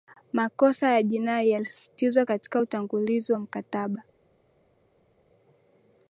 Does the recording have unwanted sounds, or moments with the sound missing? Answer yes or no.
no